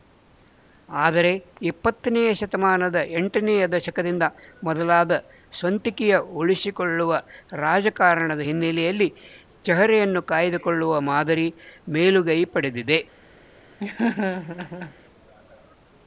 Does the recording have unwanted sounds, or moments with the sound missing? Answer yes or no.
yes